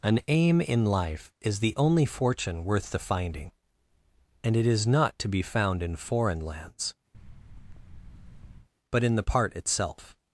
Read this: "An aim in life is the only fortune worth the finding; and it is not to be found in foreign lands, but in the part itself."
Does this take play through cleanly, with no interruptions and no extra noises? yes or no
no